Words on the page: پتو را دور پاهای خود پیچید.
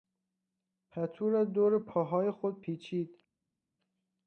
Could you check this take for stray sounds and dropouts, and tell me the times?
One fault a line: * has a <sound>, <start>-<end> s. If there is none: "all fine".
all fine